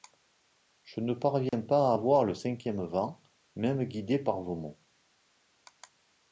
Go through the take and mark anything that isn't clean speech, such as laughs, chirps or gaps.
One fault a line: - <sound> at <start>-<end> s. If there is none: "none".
- dropout at 1.5-1.5 s